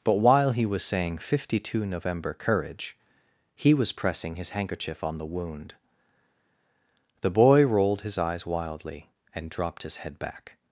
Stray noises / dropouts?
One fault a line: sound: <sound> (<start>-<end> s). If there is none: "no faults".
no faults